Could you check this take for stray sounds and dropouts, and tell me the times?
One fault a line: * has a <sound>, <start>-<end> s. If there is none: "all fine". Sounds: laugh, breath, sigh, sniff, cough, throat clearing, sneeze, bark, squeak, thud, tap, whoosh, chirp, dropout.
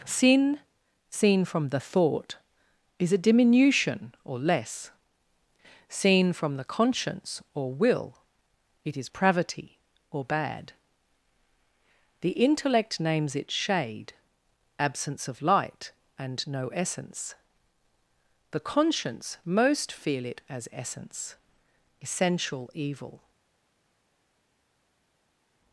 all fine